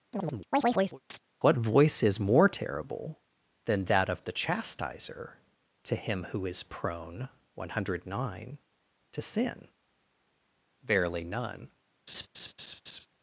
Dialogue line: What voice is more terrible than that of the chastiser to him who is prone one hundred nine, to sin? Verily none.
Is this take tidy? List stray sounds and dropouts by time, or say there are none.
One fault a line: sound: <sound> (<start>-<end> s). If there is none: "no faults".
sound: chirp (0.1-1.2 s)
sound: laugh (12.1-13.1 s)